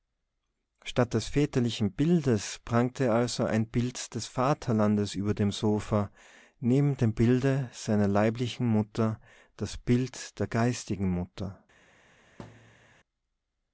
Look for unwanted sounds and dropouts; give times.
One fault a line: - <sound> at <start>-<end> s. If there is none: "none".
- thud at 12.4-13.0 s